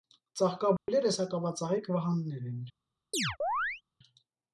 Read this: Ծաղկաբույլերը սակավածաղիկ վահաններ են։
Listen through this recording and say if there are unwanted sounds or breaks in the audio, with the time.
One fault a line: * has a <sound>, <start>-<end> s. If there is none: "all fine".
* has a dropout, 0.8-0.9 s
* has a chirp, 3.1-3.8 s